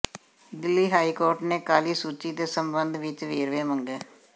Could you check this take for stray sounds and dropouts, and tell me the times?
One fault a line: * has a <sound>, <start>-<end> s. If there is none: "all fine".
all fine